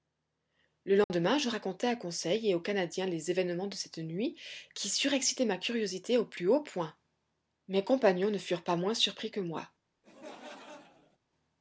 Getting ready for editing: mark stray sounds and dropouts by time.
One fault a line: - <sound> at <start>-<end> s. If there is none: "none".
- dropout at 1.0-1.1 s
- laugh at 10.0-11.2 s